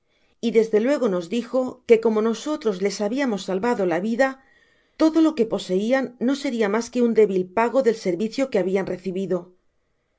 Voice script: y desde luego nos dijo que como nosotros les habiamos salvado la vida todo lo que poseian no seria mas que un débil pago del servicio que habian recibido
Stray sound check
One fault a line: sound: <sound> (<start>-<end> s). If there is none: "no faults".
no faults